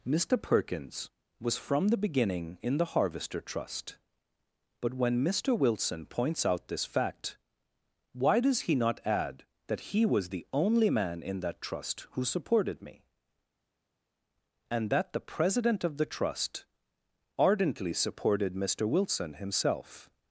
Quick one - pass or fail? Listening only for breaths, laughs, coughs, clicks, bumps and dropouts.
pass